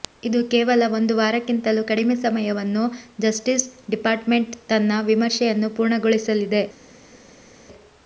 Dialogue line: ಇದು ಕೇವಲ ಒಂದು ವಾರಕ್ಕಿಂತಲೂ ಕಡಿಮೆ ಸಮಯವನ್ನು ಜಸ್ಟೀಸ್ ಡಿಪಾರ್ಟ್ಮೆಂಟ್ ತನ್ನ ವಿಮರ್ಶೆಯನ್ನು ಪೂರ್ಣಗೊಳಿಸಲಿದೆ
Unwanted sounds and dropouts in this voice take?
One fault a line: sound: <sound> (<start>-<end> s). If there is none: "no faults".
no faults